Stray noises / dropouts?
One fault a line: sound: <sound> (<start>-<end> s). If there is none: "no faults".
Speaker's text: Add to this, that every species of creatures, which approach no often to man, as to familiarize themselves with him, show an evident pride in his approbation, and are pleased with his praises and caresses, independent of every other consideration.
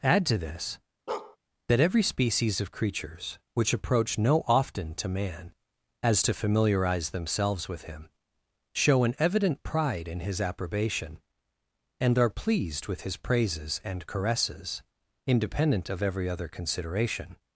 sound: bark (1.1-1.4 s)